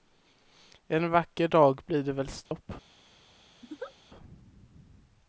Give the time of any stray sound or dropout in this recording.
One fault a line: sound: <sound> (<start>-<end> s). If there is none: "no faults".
sound: dropout (2.5-2.5 s)
sound: laugh (3.6-3.9 s)